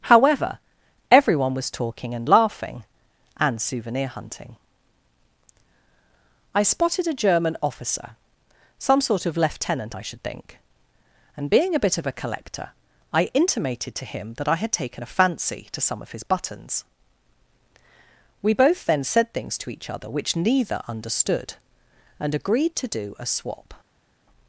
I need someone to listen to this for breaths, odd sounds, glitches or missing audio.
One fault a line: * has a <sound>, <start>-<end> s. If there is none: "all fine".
all fine